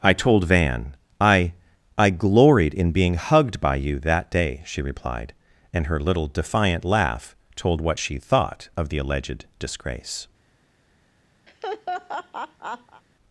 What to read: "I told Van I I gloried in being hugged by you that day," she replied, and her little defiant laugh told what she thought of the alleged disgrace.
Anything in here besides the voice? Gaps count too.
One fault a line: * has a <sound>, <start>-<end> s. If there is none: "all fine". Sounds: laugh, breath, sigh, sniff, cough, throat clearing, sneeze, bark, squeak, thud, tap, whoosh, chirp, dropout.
* has a laugh, 11.5-13.0 s